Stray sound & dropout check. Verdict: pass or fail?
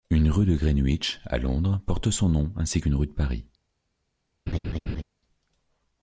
fail